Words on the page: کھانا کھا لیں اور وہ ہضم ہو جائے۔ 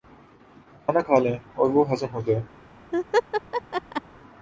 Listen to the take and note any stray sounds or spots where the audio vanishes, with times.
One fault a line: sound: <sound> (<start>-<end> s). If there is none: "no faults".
sound: laugh (2.9-4.0 s)